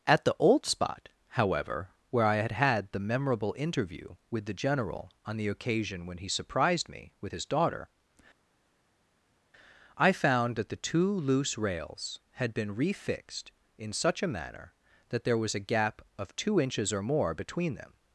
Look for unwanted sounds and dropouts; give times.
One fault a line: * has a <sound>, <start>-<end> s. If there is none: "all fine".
all fine